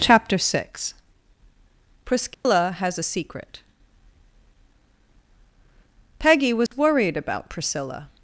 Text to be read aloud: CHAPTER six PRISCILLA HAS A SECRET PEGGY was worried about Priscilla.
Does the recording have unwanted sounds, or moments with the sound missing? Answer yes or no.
yes